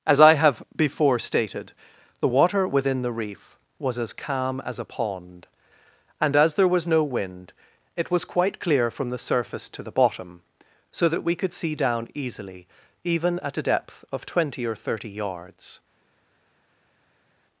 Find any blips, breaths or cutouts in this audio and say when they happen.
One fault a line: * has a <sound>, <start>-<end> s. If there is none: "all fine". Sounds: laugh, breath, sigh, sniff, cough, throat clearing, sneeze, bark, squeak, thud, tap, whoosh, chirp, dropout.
all fine